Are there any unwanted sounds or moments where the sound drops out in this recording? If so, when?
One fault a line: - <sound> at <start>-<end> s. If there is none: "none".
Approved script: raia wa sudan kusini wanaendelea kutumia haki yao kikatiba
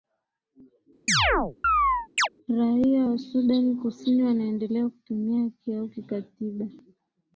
- chirp at 1.1-2.3 s